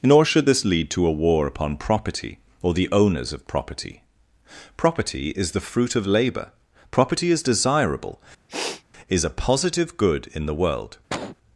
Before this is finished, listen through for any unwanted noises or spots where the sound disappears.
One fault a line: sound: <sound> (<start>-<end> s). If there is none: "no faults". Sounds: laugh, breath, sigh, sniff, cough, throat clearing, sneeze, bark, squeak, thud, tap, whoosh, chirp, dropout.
sound: sniff (8.5-8.8 s)
sound: cough (11.1-11.4 s)